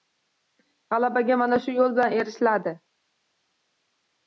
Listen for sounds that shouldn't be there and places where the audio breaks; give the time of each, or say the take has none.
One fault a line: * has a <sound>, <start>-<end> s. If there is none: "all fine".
all fine